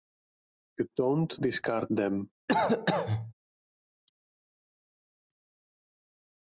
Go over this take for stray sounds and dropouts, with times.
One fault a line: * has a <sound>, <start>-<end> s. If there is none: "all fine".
* has a cough, 2.5-3.3 s